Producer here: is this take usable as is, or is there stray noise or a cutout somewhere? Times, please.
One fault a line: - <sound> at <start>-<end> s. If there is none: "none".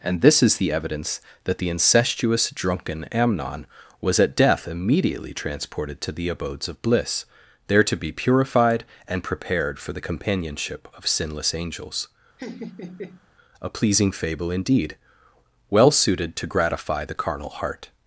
- laugh at 12.4-13.3 s